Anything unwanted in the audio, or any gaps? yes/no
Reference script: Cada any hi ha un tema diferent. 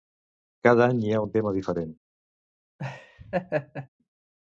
yes